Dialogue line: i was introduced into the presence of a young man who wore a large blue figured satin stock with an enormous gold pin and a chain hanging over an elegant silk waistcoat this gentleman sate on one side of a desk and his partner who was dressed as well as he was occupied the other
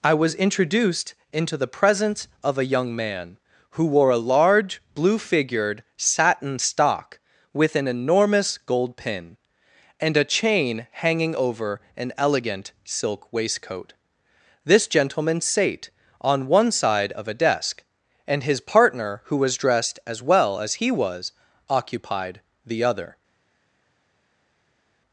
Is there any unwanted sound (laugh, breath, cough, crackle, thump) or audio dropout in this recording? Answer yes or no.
no